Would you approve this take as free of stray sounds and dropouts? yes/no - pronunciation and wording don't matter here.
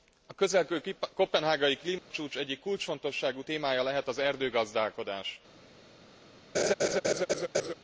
no